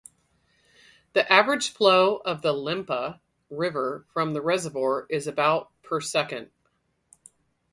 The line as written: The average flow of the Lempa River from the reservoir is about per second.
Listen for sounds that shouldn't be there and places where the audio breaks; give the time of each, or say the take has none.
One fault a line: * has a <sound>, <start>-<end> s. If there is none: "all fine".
all fine